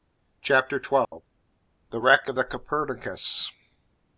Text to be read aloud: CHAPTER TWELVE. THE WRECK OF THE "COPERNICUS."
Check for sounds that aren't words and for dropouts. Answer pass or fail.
fail